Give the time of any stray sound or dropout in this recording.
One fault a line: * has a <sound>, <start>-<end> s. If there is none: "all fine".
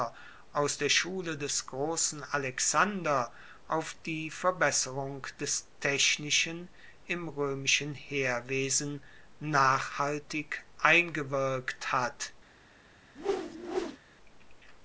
* has a whoosh, 13.1-14.0 s